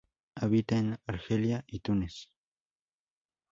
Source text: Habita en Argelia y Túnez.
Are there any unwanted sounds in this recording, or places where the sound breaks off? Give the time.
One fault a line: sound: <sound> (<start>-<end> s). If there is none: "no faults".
no faults